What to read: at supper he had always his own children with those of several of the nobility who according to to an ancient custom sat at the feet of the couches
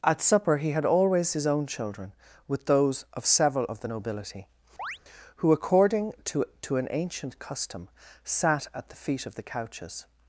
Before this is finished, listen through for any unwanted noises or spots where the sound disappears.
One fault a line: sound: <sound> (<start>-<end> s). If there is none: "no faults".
sound: chirp (4.8-5.0 s)